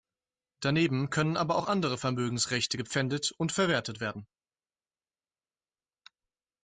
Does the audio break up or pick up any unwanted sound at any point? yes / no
no